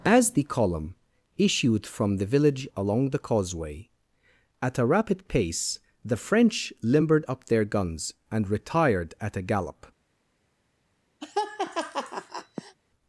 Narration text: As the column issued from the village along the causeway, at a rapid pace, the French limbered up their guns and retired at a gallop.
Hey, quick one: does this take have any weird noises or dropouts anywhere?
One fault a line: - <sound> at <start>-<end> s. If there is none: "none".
- laugh at 11.2-12.8 s